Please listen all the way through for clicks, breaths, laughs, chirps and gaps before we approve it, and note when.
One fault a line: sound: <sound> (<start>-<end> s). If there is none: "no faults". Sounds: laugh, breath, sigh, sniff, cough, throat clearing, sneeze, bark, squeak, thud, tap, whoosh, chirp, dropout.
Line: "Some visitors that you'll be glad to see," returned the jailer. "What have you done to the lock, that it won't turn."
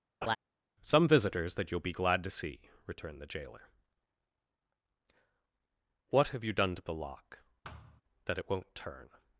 sound: laugh (0.2-0.4 s)
sound: thud (7.6-8.0 s)